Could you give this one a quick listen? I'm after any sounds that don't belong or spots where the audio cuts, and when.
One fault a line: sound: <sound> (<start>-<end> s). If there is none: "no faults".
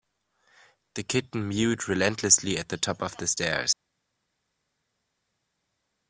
no faults